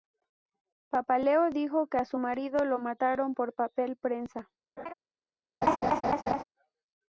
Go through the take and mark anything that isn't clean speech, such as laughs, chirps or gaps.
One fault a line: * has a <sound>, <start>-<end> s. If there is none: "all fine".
* has a laugh, 4.8-4.9 s
* has a laugh, 5.6-6.4 s